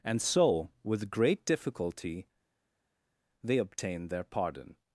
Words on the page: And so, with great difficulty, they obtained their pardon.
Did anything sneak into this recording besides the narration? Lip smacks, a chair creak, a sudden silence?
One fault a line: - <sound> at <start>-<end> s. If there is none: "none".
none